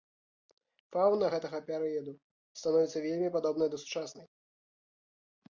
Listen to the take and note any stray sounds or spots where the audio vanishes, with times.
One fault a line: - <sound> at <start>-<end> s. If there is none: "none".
none